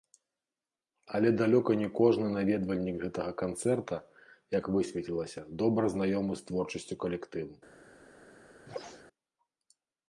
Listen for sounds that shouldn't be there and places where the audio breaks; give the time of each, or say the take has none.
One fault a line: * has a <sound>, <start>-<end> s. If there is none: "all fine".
* has a sneeze, 8.7-9.0 s